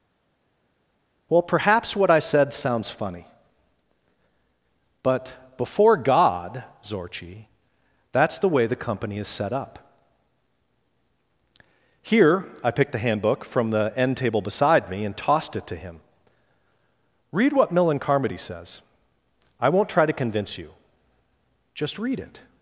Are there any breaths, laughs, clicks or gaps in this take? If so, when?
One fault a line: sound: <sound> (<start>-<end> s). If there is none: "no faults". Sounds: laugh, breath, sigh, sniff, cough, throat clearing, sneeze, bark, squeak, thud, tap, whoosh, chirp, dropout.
no faults